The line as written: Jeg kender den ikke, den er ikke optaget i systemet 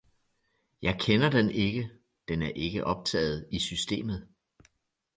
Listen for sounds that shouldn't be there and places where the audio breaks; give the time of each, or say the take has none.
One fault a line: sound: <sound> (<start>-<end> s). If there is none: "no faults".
no faults